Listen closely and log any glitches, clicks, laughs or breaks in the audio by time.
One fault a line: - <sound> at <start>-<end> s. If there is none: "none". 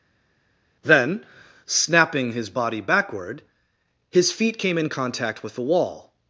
none